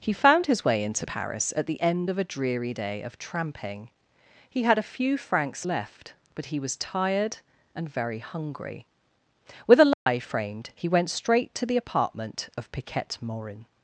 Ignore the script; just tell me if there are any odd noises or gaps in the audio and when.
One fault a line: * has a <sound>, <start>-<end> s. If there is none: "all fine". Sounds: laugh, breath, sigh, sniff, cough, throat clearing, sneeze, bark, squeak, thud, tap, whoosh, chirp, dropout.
* has a dropout, 9.9-10.1 s